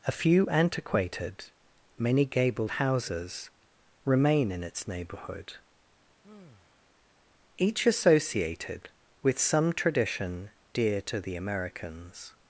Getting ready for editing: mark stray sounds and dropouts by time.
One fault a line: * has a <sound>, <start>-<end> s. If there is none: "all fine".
* has a sigh, 6.2-6.9 s